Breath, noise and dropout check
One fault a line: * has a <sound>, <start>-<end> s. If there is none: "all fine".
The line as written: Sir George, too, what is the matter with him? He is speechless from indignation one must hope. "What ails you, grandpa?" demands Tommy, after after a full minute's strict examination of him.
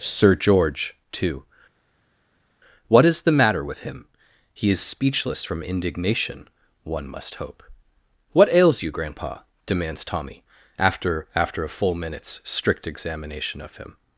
all fine